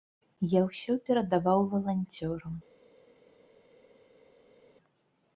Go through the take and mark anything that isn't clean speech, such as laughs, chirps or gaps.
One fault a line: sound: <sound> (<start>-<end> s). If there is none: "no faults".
no faults